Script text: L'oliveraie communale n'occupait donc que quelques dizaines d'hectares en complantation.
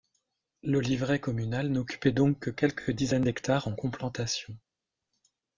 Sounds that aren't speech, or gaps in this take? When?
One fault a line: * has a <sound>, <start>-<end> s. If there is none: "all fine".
all fine